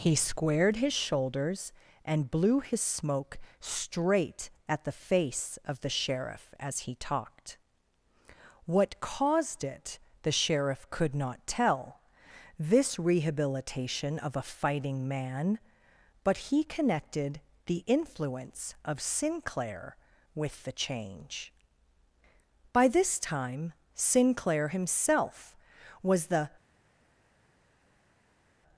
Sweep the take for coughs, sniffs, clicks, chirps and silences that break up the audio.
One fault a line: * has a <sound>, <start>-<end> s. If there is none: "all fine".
all fine